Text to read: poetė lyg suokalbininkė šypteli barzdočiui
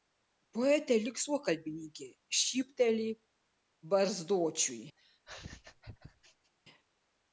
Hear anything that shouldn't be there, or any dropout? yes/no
yes